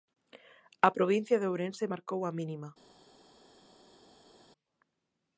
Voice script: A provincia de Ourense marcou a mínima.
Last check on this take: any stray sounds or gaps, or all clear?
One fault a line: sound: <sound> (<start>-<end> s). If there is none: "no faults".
no faults